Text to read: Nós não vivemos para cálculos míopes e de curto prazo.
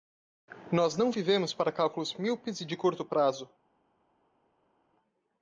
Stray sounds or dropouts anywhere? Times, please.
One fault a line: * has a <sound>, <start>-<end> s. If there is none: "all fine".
all fine